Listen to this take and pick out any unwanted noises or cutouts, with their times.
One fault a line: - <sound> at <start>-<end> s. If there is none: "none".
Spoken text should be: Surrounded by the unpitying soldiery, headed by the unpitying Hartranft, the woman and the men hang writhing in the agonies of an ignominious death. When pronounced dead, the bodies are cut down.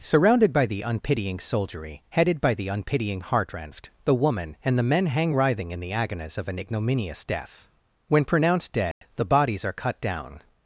- dropout at 8.9-9.0 s